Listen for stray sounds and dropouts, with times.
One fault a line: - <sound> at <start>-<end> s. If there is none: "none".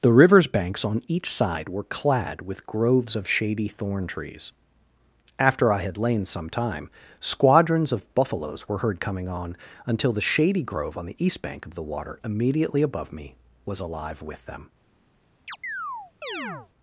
- chirp at 15.5-16.7 s